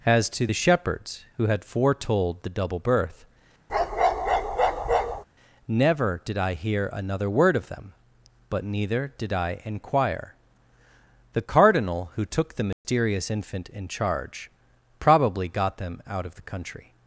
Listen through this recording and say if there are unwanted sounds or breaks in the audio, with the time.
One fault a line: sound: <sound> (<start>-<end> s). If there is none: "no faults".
sound: bark (3.7-5.2 s)
sound: dropout (12.7-12.8 s)